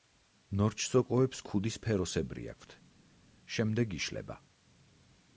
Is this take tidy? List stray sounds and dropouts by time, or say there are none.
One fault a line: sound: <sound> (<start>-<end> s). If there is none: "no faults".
no faults